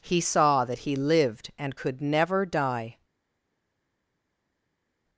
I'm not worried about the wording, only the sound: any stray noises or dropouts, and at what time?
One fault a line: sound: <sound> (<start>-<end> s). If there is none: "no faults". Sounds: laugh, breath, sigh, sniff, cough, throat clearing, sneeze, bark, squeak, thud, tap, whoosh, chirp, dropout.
no faults